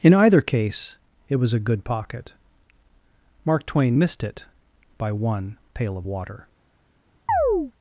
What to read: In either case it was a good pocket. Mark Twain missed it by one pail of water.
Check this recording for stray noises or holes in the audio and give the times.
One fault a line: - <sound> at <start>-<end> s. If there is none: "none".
- chirp at 7.3-7.7 s